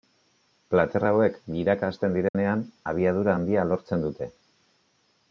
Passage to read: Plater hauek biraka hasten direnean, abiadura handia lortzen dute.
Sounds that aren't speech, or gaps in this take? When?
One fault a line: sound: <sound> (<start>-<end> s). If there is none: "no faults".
sound: dropout (2.3-2.3 s)